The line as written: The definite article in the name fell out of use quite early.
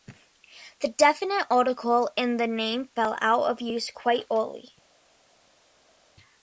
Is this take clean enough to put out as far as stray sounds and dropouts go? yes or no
yes